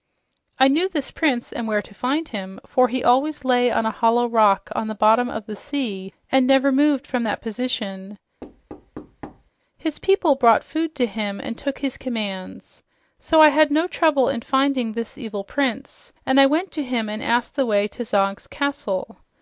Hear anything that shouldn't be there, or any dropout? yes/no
yes